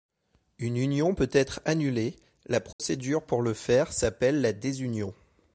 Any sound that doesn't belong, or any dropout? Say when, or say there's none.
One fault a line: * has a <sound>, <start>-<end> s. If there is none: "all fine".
* has a dropout, 2.7-2.8 s